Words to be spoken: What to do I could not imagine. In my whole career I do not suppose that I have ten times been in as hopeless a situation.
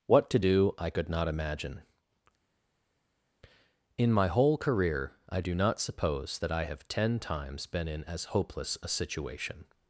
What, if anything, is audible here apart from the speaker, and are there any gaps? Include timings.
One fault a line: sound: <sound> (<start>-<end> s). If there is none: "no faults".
no faults